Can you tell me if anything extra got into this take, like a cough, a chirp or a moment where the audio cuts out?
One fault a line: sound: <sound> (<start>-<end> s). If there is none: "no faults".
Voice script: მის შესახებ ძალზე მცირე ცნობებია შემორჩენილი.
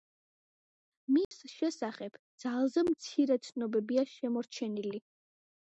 sound: dropout (1.2-1.3 s)